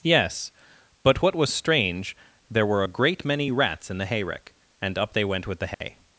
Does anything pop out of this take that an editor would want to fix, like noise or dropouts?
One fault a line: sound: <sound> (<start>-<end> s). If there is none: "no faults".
sound: dropout (5.7-5.8 s)